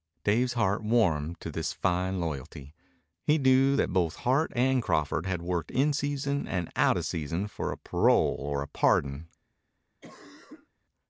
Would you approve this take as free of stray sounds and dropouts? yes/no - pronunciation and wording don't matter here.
no